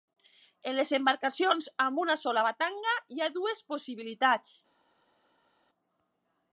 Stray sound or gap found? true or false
false